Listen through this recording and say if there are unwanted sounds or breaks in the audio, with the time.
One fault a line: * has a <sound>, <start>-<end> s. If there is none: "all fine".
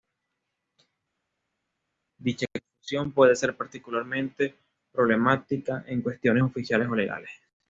all fine